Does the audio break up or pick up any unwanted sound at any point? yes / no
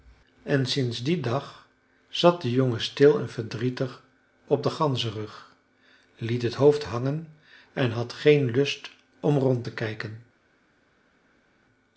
no